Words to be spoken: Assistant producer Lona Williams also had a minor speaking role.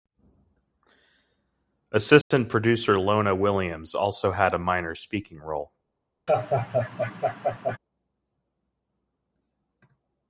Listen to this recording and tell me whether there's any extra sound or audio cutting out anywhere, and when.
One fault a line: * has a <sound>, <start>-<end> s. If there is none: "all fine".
* has a dropout, 2.2-2.3 s
* has a laugh, 6.3-7.8 s